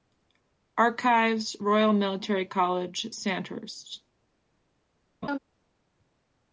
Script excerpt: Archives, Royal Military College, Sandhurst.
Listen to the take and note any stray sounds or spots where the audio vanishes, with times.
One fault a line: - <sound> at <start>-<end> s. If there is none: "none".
- laugh at 5.2-5.4 s